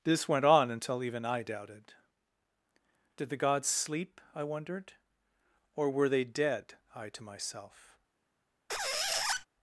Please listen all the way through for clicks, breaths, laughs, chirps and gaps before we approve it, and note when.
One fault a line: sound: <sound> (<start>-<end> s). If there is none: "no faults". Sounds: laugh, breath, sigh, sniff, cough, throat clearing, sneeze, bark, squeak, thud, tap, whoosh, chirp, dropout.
sound: squeak (8.7-9.5 s)